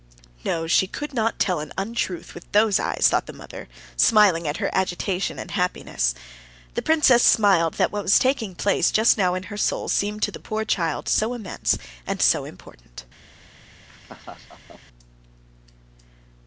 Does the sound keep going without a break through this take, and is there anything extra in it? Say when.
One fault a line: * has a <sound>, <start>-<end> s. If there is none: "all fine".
* has a laugh, 13.9-14.8 s